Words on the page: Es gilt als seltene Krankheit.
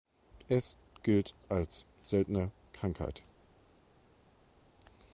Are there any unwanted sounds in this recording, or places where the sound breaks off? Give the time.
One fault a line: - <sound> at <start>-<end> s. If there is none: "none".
none